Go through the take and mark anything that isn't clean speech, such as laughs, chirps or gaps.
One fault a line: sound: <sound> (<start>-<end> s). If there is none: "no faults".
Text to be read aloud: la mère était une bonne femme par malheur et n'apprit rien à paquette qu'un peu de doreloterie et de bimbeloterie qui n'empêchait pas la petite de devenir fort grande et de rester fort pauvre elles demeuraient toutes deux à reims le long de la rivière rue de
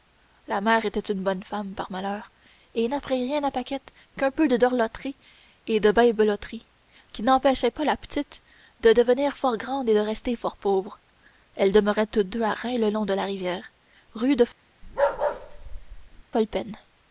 sound: bark (14.8-16.2 s)